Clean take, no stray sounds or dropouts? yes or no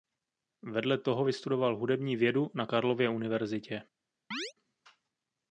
no